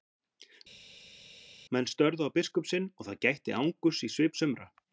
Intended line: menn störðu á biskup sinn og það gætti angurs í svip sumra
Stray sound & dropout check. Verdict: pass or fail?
pass